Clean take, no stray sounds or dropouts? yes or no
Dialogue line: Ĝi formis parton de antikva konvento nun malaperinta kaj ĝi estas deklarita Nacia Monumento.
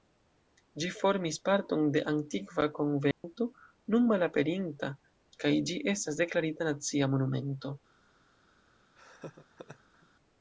no